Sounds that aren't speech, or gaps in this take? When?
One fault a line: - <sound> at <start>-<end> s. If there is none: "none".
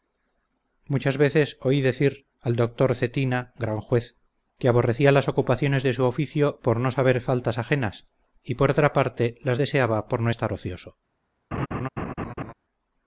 - laugh at 11.5-12.5 s